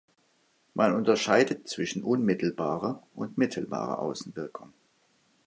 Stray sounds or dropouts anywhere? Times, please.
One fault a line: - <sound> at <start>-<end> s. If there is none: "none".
none